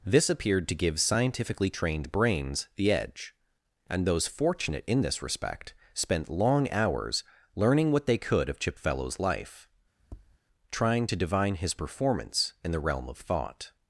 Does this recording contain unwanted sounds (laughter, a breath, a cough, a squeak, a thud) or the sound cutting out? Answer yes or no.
yes